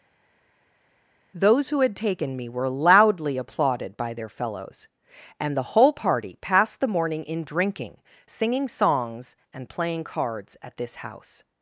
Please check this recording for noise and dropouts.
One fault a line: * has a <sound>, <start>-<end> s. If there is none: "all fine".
all fine